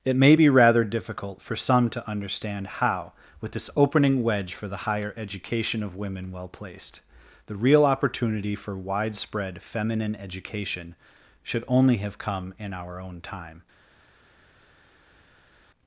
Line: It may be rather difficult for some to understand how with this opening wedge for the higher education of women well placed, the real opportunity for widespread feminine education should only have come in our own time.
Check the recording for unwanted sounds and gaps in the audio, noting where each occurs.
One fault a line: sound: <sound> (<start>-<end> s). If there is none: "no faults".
no faults